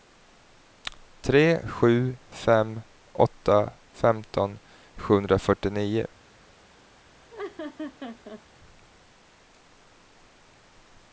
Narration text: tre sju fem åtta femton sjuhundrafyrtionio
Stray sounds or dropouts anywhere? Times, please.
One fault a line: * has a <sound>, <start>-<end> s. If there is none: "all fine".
* has a laugh, 7.3-8.4 s